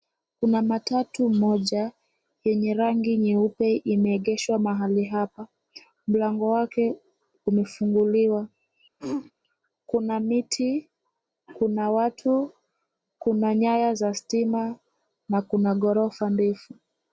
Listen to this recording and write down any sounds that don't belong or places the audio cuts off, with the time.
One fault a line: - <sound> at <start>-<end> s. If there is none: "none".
- throat clearing at 9.0-9.3 s